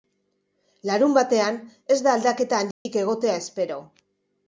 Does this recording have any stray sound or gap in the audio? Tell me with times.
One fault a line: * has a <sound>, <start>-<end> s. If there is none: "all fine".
* has a dropout, 2.7-2.9 s